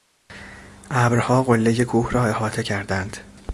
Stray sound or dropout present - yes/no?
no